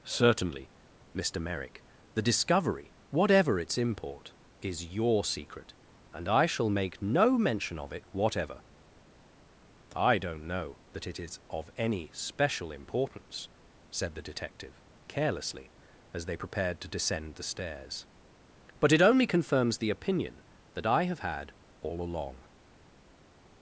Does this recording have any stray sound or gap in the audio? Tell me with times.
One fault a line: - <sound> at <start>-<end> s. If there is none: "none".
none